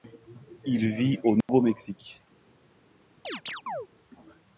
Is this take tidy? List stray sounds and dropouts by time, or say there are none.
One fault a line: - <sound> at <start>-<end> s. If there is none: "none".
- dropout at 1.4-1.5 s
- chirp at 3.2-3.9 s